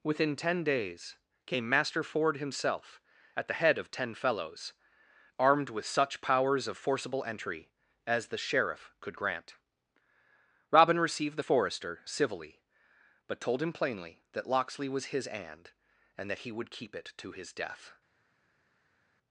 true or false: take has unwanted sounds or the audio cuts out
false